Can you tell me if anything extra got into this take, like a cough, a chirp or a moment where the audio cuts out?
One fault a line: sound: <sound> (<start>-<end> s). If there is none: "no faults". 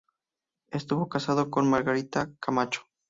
no faults